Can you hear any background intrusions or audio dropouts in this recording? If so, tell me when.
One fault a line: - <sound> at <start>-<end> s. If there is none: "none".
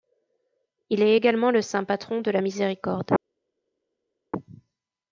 none